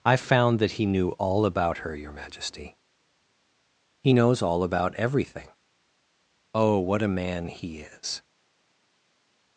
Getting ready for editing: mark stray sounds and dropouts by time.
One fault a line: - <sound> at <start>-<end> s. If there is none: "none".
none